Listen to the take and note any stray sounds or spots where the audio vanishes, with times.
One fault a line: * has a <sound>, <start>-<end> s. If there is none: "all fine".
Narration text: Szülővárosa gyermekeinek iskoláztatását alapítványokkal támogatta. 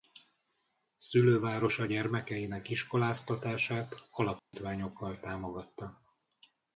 * has a dropout, 4.4-4.5 s